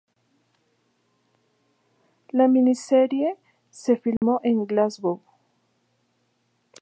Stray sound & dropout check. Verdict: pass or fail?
fail